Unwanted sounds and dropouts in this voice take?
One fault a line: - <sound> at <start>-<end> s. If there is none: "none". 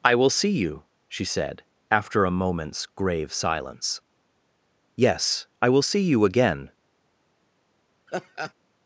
- laugh at 8.1-8.5 s